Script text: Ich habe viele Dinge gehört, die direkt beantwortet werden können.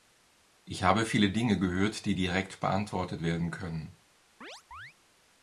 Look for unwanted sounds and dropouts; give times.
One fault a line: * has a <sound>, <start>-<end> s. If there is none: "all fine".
* has a chirp, 4.4-4.9 s